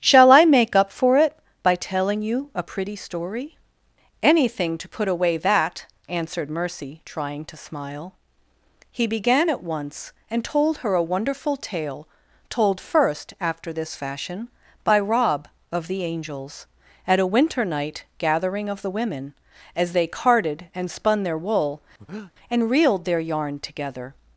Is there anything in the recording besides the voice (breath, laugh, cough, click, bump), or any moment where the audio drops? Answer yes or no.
yes